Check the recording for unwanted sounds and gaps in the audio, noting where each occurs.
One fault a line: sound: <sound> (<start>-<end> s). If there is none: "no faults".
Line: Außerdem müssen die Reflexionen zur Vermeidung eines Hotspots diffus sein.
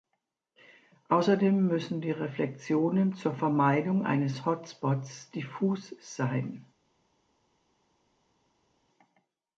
no faults